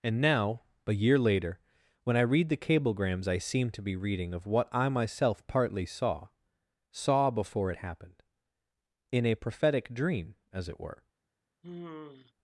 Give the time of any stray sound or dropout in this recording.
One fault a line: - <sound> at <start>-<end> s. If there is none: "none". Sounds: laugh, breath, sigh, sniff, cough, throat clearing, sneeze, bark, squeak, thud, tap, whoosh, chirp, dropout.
- sigh at 11.6-12.3 s